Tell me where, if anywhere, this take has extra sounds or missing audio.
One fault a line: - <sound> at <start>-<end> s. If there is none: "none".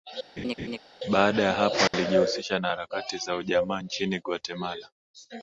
- laugh at 0.4-0.8 s
- dropout at 1.9-1.9 s